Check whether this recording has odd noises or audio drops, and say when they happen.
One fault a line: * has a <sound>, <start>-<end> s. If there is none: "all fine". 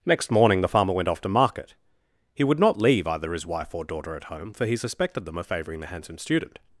all fine